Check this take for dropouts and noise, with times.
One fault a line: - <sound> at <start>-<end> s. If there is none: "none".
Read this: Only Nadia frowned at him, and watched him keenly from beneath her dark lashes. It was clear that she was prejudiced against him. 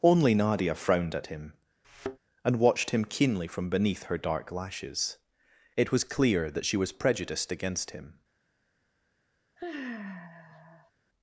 - thud at 1.8-2.2 s
- sigh at 9.6-10.9 s